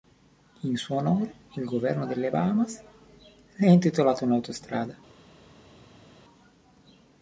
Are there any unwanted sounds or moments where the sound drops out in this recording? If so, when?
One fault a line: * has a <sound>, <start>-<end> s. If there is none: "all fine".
all fine